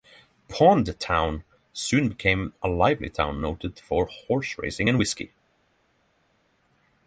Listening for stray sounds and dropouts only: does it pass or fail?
pass